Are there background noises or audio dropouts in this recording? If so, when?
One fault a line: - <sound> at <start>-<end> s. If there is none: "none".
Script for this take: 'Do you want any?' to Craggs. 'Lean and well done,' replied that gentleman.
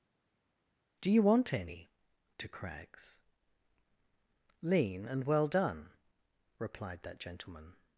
none